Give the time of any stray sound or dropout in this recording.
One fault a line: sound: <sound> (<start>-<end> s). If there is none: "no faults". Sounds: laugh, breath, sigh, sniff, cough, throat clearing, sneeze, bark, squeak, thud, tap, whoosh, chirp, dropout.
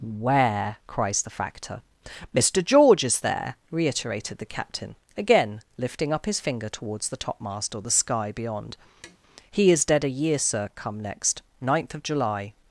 sound: tap (9.0-9.2 s)